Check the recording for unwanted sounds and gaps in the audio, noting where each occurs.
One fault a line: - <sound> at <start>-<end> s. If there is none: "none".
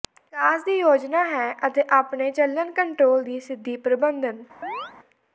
- chirp at 4.6-4.9 s